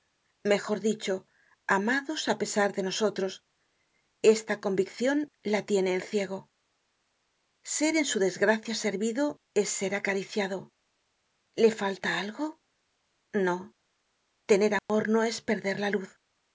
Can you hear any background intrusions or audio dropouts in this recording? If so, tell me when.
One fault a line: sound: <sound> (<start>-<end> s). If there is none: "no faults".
sound: dropout (14.8-14.9 s)